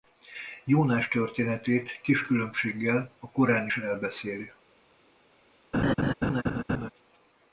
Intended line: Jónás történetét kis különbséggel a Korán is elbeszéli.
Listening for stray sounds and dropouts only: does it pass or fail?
fail